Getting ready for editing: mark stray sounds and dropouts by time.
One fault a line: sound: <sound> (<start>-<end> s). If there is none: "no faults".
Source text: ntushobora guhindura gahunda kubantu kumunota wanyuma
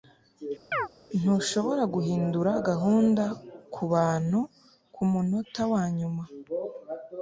sound: chirp (0.7-0.9 s)